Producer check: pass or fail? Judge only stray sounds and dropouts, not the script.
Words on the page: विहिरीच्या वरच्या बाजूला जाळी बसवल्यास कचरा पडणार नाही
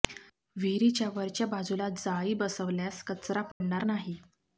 fail